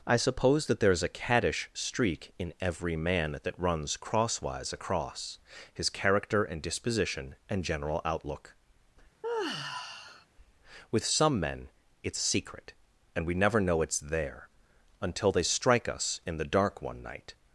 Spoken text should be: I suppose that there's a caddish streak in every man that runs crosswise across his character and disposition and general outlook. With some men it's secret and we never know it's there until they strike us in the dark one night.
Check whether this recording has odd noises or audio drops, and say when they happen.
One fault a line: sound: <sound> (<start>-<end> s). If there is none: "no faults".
sound: sigh (9.2-10.3 s)